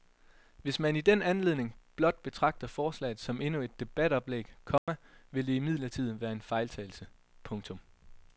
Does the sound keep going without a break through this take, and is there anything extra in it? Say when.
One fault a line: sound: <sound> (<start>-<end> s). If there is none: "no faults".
sound: dropout (4.8-4.9 s)